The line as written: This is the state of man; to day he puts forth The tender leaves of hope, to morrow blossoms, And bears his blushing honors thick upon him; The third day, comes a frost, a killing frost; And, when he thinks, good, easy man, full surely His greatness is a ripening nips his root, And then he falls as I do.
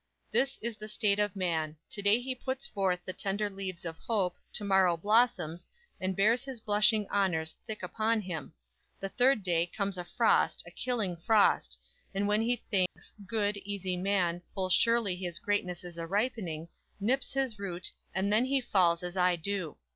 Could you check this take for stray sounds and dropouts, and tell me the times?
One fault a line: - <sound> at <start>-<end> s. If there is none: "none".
- dropout at 12.9-13.0 s